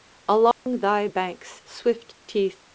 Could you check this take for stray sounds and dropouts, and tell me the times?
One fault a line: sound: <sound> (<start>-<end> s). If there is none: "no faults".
sound: dropout (0.5-0.7 s)